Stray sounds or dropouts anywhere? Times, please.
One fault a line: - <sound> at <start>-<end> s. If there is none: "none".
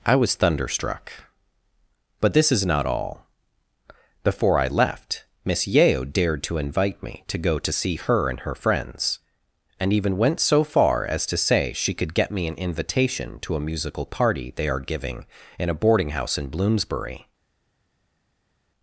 none